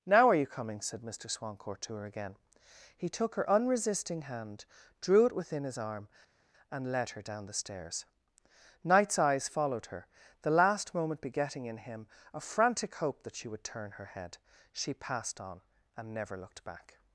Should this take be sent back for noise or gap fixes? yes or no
no